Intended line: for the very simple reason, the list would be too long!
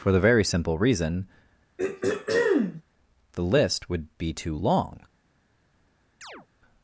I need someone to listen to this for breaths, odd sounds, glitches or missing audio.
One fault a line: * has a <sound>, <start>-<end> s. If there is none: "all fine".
* has a throat clearing, 1.8-2.8 s
* has a chirp, 6.2-6.5 s